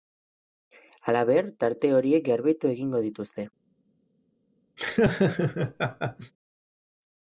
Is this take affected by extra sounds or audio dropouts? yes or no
yes